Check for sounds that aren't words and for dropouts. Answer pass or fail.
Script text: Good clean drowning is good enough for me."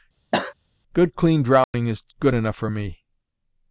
fail